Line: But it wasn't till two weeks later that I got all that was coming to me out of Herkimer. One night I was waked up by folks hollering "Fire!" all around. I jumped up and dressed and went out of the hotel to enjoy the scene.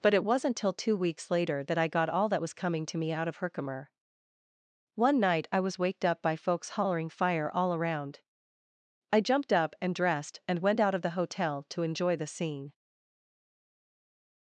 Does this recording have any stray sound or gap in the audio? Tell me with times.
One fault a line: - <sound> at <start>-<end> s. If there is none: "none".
none